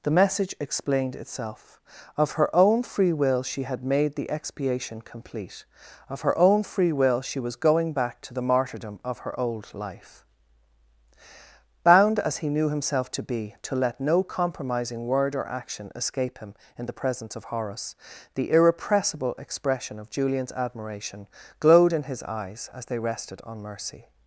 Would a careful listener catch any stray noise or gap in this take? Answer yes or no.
no